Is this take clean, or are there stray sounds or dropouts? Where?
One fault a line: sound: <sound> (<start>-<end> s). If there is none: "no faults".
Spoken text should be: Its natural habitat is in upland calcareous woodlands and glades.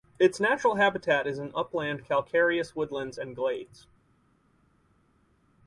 no faults